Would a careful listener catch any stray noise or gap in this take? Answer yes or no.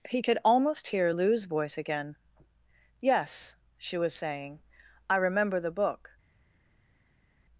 no